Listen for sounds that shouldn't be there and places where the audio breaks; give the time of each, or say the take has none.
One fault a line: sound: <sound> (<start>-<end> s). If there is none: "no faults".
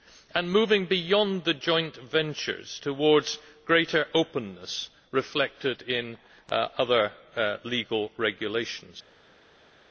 no faults